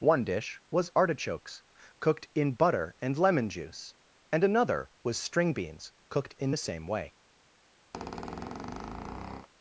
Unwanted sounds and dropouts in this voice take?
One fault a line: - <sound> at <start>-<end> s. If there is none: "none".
- squeak at 7.9-9.5 s